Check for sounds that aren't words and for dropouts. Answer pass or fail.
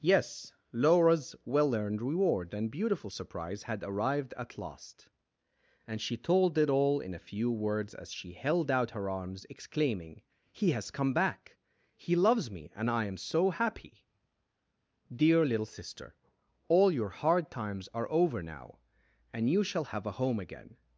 pass